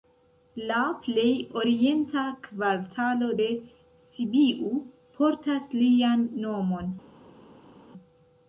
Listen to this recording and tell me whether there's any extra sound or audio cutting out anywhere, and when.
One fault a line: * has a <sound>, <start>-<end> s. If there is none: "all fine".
all fine